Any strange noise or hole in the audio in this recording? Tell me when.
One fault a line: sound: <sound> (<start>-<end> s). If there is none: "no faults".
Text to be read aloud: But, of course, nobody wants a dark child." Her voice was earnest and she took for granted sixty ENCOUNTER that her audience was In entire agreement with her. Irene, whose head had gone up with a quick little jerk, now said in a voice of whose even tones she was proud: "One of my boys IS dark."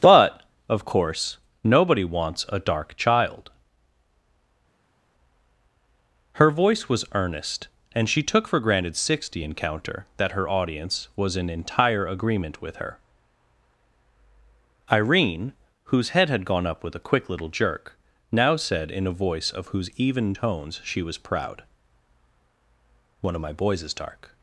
no faults